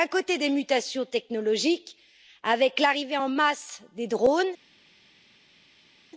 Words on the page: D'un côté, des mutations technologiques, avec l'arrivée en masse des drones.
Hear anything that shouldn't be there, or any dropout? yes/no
no